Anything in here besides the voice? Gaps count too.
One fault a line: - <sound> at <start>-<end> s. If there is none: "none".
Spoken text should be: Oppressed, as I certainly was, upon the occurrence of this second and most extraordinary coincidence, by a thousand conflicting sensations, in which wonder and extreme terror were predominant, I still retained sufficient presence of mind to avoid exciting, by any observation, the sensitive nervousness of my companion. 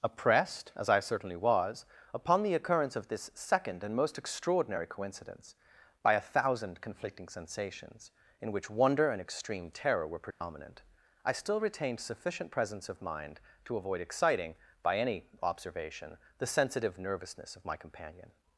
- dropout at 10.3-10.4 s